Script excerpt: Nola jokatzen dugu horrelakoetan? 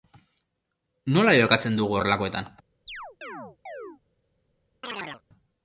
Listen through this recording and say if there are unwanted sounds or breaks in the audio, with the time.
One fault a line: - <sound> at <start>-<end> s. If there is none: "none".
- chirp at 2.9-4.0 s
- chirp at 4.8-5.2 s